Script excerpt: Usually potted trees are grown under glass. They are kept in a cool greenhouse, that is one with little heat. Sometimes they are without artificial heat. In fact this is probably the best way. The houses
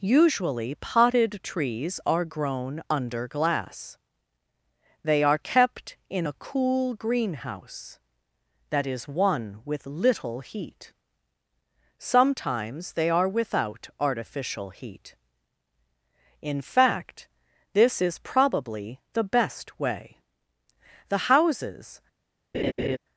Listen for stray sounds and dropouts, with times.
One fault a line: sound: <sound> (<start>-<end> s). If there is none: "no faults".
sound: laugh (22.5-23.0 s)